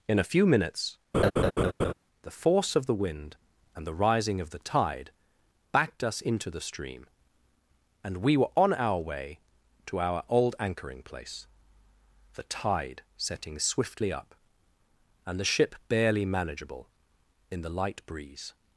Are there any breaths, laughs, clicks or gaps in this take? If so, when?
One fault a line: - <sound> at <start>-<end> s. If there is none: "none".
- laugh at 1.1-1.9 s